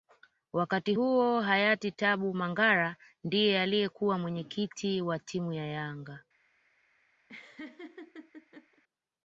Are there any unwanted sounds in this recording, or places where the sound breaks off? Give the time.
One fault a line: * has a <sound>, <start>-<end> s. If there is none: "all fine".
* has a laugh, 7.3-8.8 s